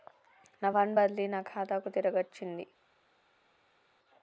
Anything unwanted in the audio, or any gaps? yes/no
no